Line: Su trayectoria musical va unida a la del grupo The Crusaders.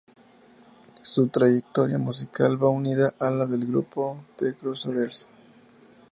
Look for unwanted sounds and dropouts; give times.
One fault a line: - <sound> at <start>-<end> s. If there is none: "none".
none